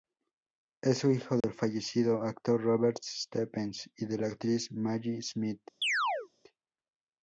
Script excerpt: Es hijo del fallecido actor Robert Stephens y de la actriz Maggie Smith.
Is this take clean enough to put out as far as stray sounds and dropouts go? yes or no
no